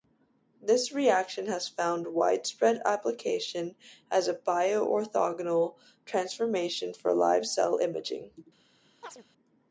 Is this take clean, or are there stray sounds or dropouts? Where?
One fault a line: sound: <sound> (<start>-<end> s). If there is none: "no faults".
sound: chirp (9.0-9.2 s)